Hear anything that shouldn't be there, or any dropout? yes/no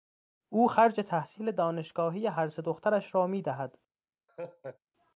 yes